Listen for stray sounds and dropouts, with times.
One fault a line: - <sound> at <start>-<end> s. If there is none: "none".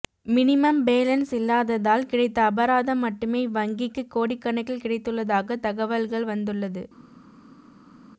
none